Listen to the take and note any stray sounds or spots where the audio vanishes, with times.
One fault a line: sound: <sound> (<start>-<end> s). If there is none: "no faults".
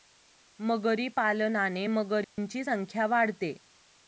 sound: dropout (2.2-2.4 s)